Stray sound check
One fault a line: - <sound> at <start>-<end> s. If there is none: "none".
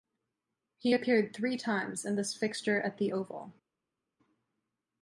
none